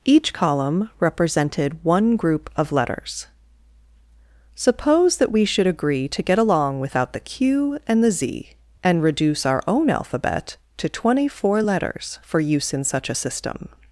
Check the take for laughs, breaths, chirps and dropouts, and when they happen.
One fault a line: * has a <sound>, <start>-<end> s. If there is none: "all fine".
all fine